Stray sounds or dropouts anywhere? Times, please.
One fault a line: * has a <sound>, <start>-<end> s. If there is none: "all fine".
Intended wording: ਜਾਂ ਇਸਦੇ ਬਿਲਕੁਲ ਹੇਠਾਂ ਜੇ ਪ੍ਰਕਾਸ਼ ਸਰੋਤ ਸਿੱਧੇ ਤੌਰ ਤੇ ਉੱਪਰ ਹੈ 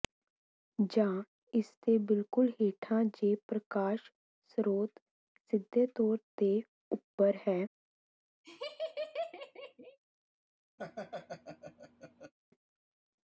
* has a laugh, 8.4-10.0 s
* has a laugh, 10.8-12.3 s